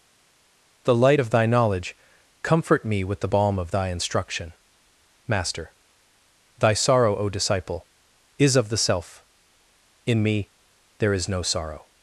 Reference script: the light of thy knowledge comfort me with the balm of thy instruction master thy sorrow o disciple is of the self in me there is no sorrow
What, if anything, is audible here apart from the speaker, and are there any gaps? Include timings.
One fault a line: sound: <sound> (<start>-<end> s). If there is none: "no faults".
no faults